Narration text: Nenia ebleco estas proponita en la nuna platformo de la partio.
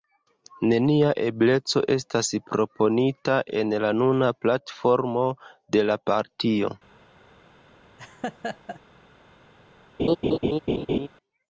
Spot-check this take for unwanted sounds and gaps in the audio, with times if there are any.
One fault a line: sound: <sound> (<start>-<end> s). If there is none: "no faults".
sound: laugh (8.0-8.8 s)
sound: laugh (10.0-11.1 s)